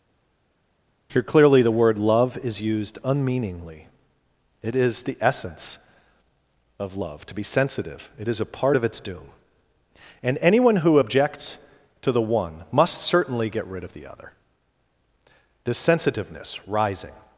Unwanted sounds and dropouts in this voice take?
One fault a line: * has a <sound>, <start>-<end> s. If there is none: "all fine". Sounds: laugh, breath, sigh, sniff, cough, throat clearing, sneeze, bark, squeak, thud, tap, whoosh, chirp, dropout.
all fine